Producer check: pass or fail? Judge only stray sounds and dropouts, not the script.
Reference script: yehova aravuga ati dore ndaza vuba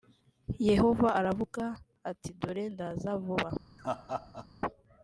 fail